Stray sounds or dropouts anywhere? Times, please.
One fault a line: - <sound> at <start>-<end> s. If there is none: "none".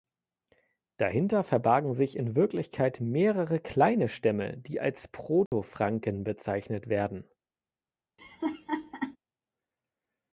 - dropout at 5.5-5.5 s
- laugh at 8.2-9.2 s